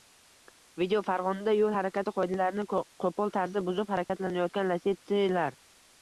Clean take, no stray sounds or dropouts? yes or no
no